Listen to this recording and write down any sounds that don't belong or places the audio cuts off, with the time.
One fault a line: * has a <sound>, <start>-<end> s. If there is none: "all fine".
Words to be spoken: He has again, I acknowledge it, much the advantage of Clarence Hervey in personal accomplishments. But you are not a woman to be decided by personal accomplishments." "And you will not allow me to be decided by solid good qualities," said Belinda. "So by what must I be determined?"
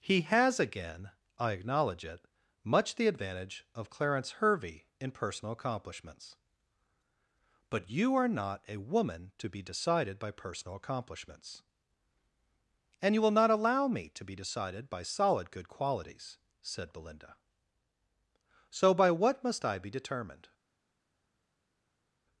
all fine